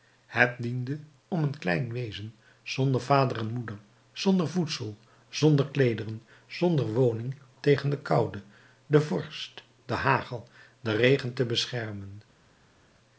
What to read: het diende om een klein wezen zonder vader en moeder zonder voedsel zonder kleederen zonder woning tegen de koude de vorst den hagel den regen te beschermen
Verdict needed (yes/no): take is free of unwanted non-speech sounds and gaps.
yes